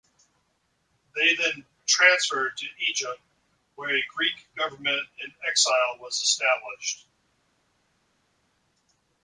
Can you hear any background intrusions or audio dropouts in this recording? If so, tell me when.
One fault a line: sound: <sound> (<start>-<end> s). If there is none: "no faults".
no faults